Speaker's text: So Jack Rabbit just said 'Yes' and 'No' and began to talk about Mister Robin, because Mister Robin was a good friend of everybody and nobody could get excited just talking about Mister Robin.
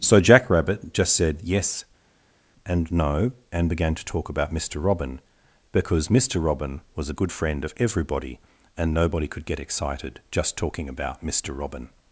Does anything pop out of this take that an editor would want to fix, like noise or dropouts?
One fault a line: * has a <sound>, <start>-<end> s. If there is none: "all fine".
all fine